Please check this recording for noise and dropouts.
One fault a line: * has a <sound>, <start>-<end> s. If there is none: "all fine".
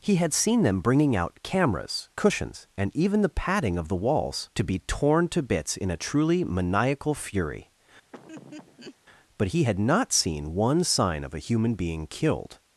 * has a laugh, 8.1-9.0 s